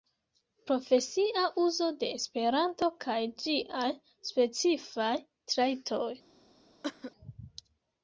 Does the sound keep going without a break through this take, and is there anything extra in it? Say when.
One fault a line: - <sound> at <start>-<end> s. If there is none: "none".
- cough at 6.8-7.1 s